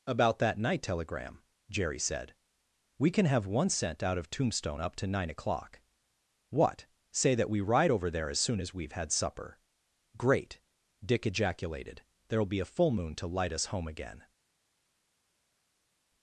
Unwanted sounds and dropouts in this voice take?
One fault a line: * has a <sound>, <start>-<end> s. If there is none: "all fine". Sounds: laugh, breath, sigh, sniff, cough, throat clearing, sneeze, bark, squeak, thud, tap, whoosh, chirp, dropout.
all fine